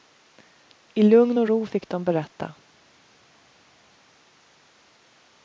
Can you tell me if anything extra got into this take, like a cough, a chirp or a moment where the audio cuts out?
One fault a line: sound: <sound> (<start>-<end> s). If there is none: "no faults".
no faults